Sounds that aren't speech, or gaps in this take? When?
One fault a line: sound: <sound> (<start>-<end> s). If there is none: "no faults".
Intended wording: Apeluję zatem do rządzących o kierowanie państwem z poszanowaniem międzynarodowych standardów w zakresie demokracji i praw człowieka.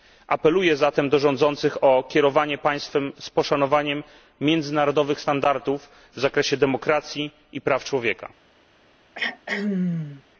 sound: throat clearing (9.1-10.2 s)